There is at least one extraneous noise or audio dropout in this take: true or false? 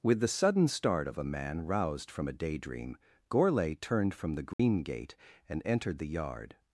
true